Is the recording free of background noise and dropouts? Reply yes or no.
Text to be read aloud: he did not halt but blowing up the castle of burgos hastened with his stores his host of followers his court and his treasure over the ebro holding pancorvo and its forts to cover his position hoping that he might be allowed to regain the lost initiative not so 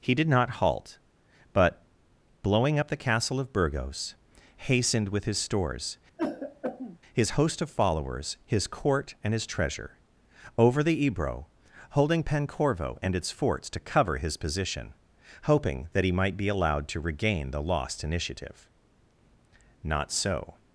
no